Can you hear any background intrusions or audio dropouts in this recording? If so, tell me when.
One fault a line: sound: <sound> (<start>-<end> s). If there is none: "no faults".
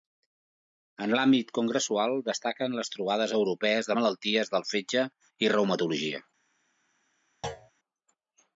sound: thud (7.4-7.7 s)